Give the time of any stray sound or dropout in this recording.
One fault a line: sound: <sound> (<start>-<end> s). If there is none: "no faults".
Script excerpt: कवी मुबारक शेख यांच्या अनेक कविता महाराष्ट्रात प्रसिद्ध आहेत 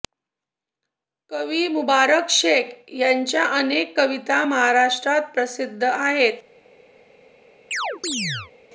sound: chirp (7.7-8.5 s)